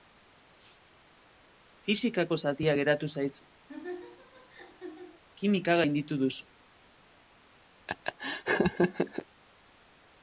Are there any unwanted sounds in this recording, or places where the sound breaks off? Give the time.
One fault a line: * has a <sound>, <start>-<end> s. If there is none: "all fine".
* has a laugh, 3.7-5.2 s
* has a laugh, 7.9-9.3 s